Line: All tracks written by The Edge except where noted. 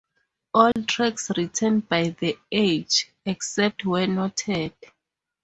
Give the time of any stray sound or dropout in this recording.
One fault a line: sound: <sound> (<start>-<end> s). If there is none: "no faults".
sound: dropout (0.7-0.8 s)